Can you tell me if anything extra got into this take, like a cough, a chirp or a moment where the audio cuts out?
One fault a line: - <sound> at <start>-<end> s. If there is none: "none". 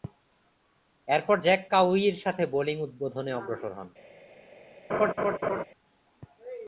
- laugh at 4.9-5.6 s